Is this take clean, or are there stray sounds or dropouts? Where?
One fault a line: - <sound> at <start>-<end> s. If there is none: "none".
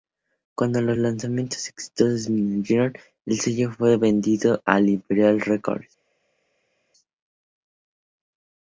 none